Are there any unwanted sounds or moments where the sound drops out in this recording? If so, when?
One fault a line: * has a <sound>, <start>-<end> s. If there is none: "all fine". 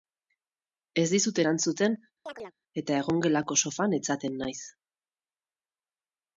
* has a chirp, 2.3-2.5 s